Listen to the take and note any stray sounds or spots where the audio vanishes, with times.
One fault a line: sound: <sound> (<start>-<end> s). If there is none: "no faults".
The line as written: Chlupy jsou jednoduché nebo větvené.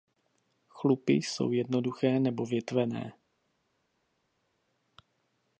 no faults